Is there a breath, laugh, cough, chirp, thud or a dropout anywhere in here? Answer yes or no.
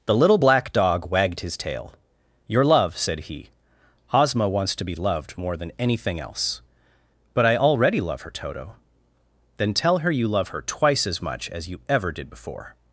no